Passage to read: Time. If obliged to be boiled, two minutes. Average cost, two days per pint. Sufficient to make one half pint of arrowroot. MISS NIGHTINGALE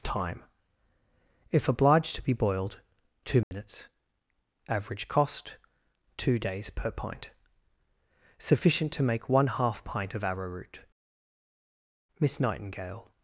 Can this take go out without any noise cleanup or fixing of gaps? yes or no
no